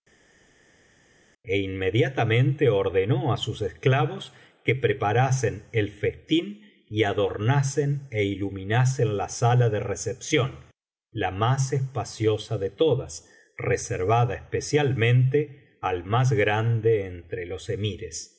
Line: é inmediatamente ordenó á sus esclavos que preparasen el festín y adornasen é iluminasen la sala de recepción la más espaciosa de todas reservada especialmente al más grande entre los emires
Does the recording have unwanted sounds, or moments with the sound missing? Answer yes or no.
no